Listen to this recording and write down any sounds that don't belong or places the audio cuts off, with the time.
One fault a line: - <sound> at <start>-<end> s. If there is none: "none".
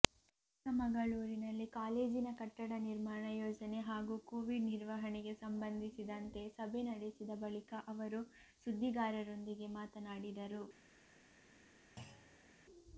- thud at 12.0-12.5 s